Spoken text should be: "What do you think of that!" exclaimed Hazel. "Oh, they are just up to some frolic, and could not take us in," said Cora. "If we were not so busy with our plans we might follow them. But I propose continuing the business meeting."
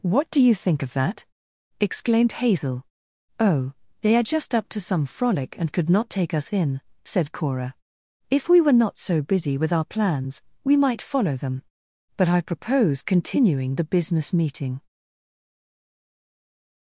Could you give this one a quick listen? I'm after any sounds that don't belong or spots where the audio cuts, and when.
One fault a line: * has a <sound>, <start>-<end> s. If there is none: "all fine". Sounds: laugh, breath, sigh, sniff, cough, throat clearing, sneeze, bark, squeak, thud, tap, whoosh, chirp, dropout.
all fine